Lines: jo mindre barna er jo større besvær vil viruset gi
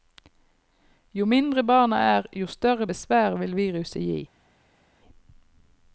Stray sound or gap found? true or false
false